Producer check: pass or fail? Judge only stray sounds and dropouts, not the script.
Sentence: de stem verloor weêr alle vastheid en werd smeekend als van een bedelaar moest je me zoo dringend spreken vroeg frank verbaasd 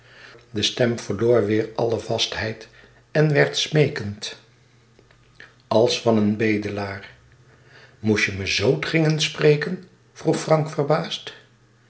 pass